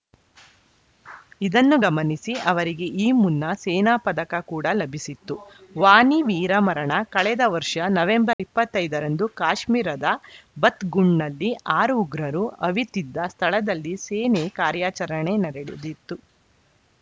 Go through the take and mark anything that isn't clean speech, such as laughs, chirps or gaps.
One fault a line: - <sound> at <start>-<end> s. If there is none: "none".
- dropout at 8.3-8.4 s